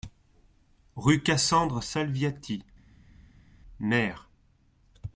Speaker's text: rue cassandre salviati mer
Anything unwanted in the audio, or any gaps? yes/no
no